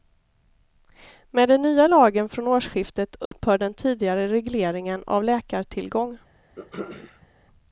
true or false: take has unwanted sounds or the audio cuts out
true